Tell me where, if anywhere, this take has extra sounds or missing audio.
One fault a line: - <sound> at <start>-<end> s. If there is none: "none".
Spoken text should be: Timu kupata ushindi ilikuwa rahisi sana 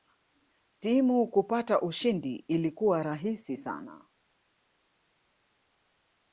none